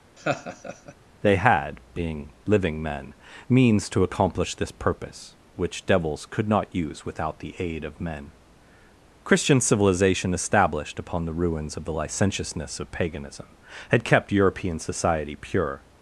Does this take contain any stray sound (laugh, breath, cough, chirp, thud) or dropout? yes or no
yes